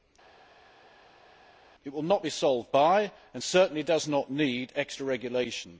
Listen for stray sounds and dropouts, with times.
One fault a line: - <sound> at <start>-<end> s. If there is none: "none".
none